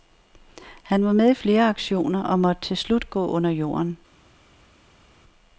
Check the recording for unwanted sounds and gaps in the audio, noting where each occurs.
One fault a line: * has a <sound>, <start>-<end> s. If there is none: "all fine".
all fine